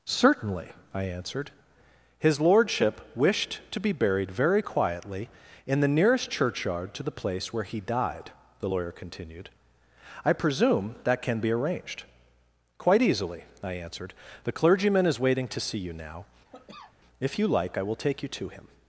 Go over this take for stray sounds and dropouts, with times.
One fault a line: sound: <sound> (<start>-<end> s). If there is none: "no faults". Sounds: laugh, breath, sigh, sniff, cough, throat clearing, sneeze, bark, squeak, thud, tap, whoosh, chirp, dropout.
sound: cough (16.4-17.0 s)